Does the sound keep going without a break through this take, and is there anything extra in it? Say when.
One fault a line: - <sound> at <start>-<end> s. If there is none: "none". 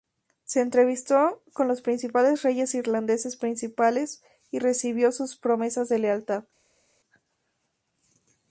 none